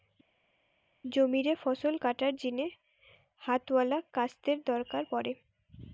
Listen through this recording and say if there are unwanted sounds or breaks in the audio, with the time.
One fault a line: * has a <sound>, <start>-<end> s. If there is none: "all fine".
all fine